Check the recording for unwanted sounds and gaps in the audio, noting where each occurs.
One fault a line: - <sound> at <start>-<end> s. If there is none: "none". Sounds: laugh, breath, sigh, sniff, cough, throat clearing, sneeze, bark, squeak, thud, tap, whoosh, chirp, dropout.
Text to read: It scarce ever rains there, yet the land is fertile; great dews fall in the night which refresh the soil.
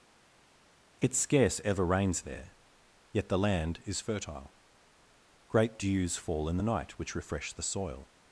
none